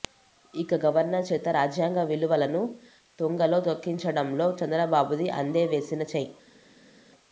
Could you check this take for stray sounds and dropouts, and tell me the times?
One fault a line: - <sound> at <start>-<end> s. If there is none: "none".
none